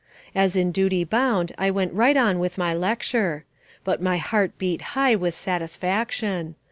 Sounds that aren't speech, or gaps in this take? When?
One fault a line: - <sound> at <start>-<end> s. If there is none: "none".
none